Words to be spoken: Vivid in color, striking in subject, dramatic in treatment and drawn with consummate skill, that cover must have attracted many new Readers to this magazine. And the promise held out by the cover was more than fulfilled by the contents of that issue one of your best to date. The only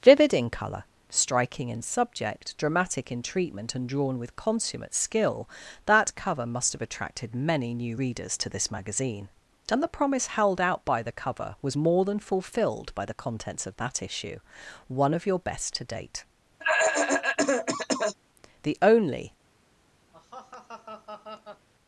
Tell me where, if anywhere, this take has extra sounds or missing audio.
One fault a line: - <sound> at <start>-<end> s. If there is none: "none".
- cough at 16.6-18.2 s
- laugh at 20.1-21.7 s